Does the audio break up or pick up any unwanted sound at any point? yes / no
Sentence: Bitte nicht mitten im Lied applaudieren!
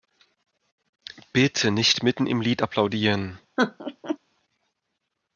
yes